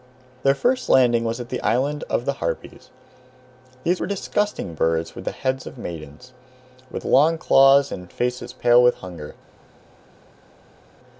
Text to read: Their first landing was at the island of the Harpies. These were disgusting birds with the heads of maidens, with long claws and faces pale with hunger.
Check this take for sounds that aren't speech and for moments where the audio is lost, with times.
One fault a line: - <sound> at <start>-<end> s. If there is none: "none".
none